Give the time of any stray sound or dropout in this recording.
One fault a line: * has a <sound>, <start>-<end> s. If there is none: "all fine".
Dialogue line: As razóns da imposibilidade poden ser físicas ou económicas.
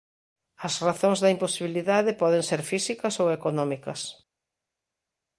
all fine